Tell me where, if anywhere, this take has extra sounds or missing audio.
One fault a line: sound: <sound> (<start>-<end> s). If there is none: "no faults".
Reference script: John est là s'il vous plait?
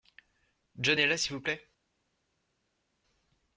no faults